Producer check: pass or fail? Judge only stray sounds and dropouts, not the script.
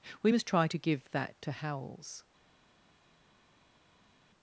pass